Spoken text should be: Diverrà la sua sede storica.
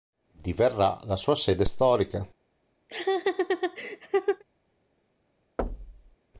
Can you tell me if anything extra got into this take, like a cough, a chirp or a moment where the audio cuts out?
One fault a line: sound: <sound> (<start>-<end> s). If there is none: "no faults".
sound: laugh (2.9-4.4 s)
sound: thud (5.6-6.2 s)